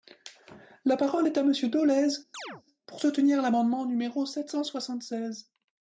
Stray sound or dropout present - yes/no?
yes